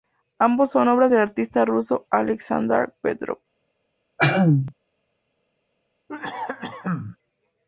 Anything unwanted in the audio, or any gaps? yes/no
yes